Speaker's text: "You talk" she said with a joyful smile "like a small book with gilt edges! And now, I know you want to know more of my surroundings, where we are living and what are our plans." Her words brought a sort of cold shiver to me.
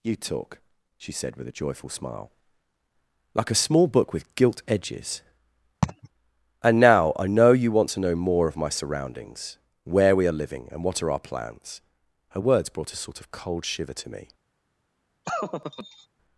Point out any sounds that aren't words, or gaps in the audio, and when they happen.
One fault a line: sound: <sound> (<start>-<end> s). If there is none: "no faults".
sound: laugh (5.8-6.1 s)
sound: laugh (15.2-16.1 s)